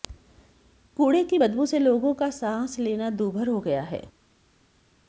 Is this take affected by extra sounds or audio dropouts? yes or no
no